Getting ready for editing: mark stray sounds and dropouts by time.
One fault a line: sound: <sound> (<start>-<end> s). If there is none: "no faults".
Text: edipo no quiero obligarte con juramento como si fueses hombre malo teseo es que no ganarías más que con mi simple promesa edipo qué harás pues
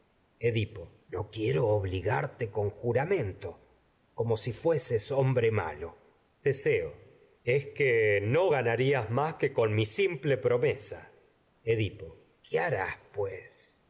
no faults